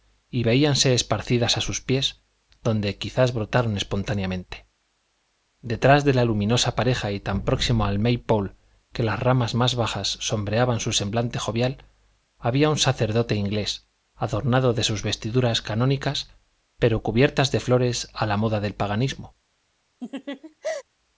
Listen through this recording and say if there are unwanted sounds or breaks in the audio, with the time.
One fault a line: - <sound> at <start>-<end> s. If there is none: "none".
- laugh at 20.0-20.8 s